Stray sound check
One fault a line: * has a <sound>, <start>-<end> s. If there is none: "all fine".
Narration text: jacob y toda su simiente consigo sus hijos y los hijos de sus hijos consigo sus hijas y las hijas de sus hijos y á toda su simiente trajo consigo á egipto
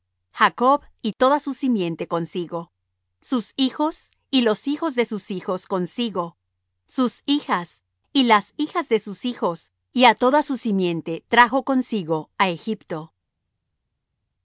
all fine